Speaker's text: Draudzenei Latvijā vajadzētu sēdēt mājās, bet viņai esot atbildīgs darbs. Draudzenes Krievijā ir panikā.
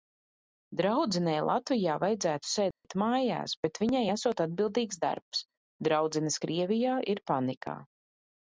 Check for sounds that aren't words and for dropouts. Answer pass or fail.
fail